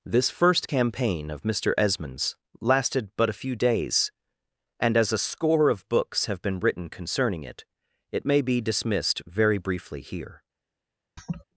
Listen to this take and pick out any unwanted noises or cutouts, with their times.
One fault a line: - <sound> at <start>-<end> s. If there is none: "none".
- laugh at 11.2-11.5 s